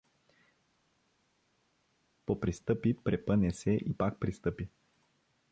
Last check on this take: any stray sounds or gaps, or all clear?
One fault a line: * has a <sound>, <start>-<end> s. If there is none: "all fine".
all fine